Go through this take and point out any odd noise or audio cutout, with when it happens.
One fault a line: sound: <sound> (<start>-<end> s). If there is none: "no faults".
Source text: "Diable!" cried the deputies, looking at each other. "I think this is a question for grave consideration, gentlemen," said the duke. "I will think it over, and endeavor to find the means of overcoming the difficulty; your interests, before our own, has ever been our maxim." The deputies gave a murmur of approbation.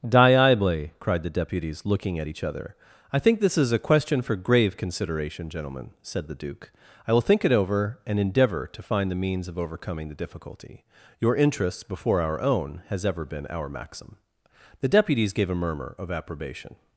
no faults